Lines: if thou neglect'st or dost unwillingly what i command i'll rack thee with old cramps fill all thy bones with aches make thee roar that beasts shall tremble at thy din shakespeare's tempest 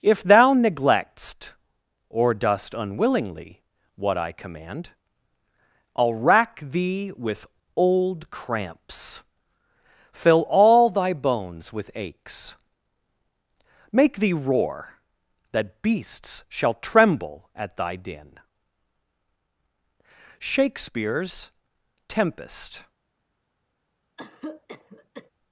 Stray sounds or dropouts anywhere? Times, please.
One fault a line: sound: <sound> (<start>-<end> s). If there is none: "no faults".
sound: cough (24.2-25.3 s)